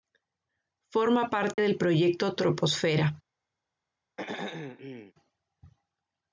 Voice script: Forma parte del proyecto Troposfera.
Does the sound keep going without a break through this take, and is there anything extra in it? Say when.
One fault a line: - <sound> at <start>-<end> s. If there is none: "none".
- dropout at 1.5-1.6 s
- throat clearing at 4.2-5.1 s